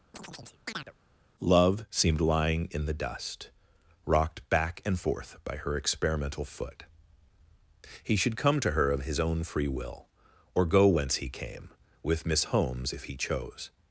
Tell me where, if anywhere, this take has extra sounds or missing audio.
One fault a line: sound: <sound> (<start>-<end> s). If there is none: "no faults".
sound: chirp (0.1-0.9 s)